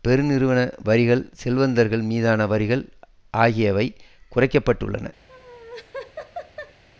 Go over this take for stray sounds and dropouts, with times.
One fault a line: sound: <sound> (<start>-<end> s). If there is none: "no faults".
sound: laugh (5.3-6.8 s)